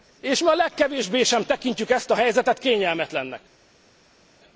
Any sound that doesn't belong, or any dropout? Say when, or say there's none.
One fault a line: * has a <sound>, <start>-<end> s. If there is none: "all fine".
all fine